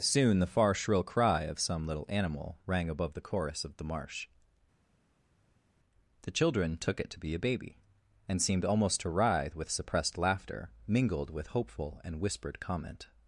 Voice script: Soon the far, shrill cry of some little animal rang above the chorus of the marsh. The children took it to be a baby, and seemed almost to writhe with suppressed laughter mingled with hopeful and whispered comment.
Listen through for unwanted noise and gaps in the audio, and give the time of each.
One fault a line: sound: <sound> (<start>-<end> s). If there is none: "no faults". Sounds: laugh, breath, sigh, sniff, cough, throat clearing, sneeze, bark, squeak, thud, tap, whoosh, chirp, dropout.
no faults